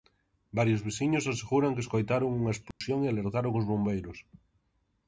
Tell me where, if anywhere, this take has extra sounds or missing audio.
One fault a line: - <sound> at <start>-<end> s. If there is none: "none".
- dropout at 2.7-2.8 s